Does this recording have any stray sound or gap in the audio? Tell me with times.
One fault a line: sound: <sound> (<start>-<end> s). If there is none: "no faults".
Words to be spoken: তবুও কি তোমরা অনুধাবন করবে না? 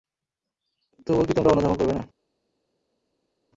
no faults